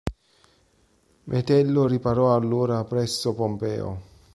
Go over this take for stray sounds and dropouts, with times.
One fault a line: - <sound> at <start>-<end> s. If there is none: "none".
none